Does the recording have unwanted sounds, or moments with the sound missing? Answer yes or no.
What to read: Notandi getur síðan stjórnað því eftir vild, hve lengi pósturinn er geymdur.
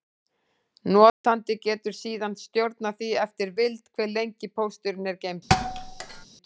yes